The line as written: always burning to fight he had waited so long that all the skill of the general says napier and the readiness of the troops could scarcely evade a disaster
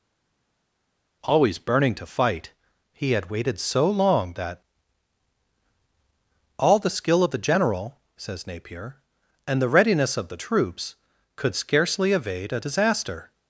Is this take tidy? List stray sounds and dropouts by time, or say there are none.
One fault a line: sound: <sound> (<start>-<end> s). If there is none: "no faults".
no faults